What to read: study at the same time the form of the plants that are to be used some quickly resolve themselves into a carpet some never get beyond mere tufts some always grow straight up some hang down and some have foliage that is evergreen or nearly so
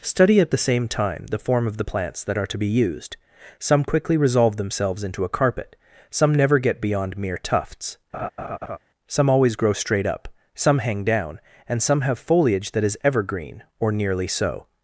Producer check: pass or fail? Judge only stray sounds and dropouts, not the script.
fail